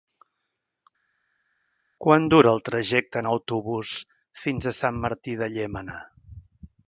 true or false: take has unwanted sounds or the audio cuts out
false